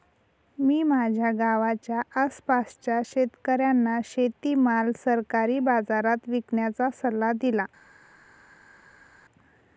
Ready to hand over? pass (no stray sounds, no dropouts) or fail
pass